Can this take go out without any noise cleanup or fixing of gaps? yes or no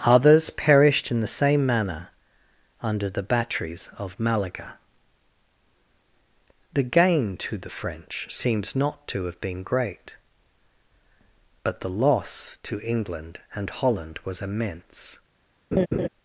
no